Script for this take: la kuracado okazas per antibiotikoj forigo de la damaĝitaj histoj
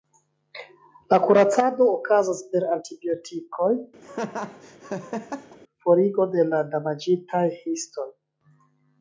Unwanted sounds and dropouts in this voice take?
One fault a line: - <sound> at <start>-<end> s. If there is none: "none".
- laugh at 4.0-5.6 s